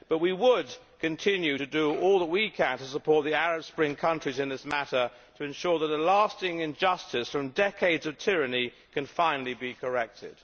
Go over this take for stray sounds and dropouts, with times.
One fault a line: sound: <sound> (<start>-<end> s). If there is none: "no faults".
no faults